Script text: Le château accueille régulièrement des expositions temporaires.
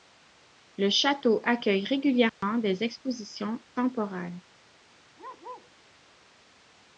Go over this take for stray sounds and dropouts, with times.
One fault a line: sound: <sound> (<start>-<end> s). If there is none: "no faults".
sound: dropout (2.3-2.4 s)
sound: bark (5.2-5.7 s)